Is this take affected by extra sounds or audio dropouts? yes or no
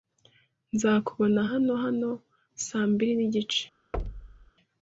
yes